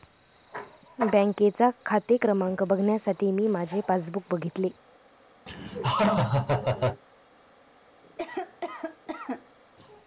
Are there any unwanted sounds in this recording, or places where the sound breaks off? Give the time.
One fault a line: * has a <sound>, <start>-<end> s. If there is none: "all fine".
* has a laugh, 5.5-7.0 s
* has a cough, 8.0-9.6 s